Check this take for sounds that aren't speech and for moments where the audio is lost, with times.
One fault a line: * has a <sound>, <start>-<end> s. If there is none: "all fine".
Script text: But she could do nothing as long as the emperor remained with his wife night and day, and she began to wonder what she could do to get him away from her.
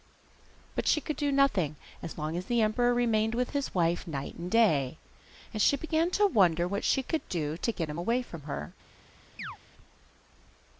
* has a chirp, 9.4-9.6 s